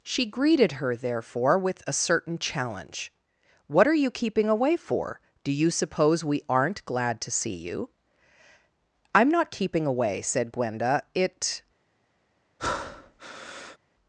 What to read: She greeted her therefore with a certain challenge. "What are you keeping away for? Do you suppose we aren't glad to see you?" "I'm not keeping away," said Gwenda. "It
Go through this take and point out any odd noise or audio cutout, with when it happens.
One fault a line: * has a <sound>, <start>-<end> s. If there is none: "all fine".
* has a breath, 12.6-13.8 s